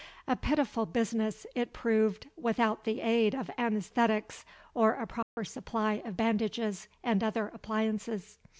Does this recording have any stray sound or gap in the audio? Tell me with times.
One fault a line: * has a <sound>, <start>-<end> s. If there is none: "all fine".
* has a dropout, 5.2-5.4 s